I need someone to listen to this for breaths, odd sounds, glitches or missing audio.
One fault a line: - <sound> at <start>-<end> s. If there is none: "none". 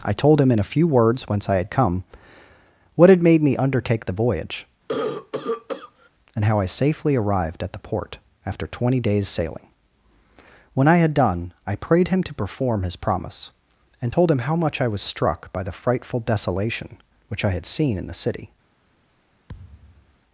- cough at 4.9-6.1 s
- thud at 19.5-20.2 s